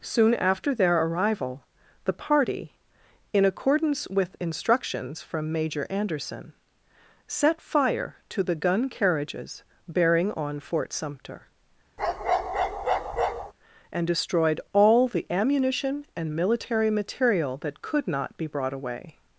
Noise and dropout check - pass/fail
fail